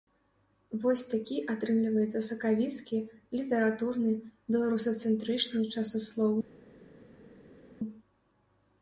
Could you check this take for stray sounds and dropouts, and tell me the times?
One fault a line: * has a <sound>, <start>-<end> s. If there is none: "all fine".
all fine